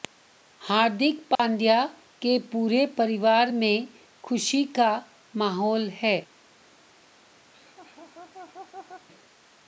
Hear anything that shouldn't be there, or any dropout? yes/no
yes